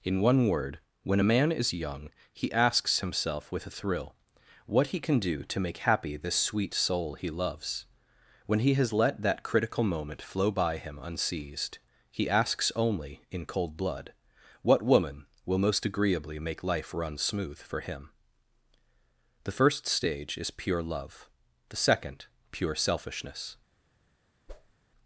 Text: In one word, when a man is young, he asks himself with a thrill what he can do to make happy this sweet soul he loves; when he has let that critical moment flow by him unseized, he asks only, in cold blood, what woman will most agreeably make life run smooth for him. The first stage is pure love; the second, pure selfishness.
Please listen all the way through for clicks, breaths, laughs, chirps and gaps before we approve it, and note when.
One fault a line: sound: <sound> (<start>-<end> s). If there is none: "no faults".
sound: whoosh (24.5-24.7 s)